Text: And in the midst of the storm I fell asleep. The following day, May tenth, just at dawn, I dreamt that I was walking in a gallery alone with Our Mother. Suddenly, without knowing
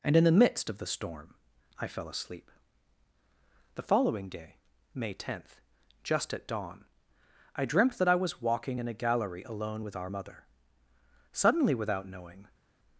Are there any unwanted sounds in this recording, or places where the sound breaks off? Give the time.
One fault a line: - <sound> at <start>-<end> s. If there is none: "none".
none